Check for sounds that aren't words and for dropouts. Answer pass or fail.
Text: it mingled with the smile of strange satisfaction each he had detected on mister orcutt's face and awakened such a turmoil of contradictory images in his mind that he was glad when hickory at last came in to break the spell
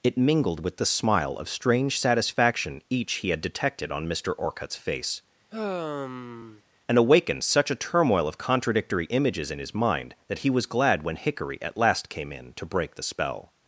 fail